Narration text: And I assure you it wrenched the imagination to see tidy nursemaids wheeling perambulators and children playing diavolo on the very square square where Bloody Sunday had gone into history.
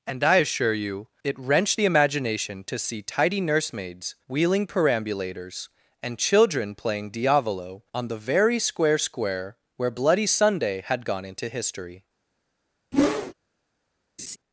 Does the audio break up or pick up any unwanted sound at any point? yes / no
yes